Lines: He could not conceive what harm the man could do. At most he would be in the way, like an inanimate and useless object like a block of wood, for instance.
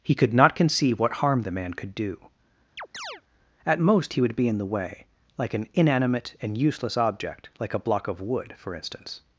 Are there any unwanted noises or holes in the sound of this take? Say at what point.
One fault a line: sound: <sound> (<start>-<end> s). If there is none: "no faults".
sound: chirp (2.8-3.2 s)